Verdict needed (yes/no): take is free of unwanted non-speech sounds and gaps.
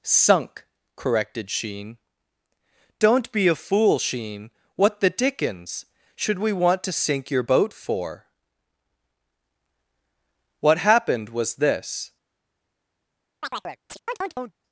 no